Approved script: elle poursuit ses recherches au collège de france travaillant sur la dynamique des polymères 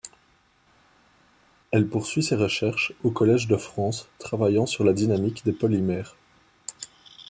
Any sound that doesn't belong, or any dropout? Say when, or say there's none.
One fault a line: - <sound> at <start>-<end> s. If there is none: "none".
none